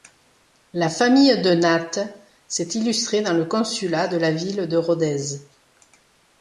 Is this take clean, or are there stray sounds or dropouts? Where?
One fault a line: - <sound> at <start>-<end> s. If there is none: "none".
none